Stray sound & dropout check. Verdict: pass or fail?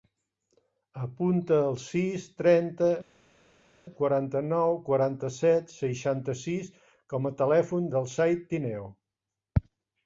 pass